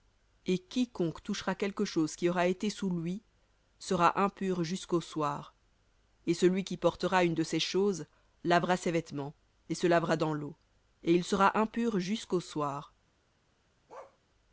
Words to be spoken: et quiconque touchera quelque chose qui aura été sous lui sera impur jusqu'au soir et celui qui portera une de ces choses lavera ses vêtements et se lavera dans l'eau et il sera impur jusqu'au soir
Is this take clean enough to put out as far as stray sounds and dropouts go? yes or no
no